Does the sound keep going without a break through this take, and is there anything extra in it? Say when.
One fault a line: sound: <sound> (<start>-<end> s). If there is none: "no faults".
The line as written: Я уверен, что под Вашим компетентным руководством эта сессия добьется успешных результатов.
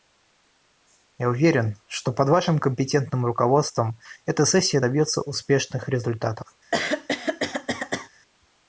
sound: throat clearing (6.7-8.1 s)